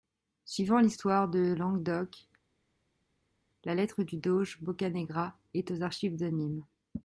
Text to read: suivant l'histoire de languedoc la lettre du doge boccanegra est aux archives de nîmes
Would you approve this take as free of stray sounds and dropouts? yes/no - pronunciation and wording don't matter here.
yes